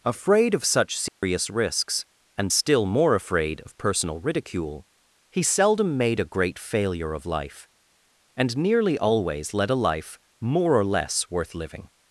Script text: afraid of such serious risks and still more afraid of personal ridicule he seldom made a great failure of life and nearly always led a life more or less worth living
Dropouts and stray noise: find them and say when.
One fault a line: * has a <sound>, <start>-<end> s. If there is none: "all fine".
* has a dropout, 1.1-1.2 s